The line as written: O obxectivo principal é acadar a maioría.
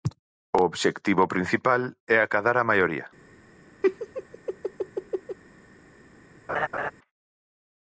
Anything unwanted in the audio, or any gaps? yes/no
yes